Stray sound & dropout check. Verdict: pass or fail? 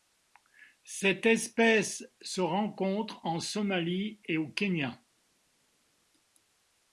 pass